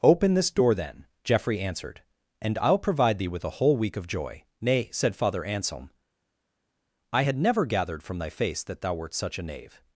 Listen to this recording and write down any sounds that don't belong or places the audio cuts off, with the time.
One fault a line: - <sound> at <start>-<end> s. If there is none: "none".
none